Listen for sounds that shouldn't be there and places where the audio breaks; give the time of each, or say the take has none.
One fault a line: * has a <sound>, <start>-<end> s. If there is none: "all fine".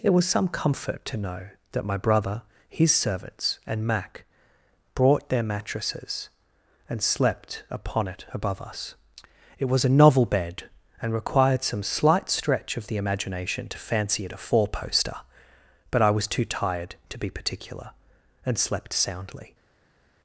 all fine